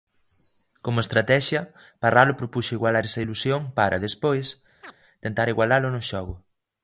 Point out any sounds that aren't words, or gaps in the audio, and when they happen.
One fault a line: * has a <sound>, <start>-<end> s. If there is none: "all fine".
* has a chirp, 4.8-5.0 s